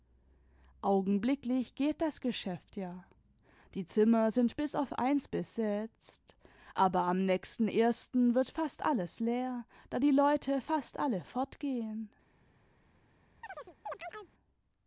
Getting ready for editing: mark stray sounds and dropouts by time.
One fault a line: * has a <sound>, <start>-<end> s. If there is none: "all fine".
* has a chirp, 13.4-14.3 s